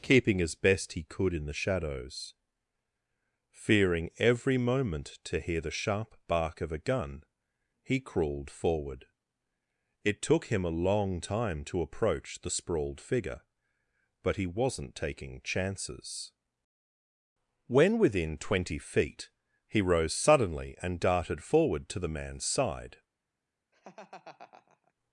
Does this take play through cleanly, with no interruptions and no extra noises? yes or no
no